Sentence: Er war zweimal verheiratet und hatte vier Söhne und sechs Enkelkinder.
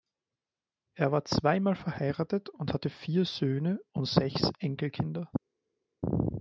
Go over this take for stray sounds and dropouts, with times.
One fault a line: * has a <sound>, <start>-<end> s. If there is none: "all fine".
all fine